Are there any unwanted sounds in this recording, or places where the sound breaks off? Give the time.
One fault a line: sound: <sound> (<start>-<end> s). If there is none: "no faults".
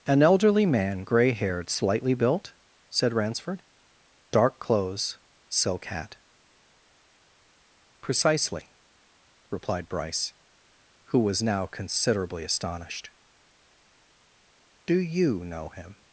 no faults